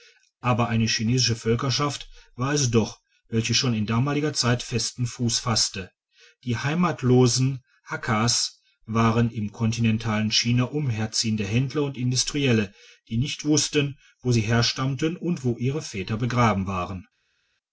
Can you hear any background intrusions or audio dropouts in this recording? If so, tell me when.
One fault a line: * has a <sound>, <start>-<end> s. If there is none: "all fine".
all fine